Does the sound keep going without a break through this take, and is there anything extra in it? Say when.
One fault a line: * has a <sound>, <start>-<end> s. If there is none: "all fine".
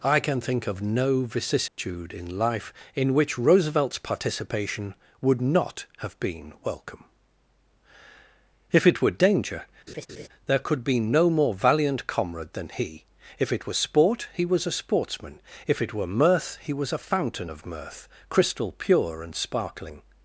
* has a dropout, 1.7-1.8 s
* has a laugh, 9.9-10.3 s